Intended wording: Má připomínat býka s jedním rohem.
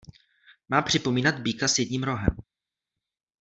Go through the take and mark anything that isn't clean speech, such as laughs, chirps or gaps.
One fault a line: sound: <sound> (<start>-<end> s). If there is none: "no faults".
no faults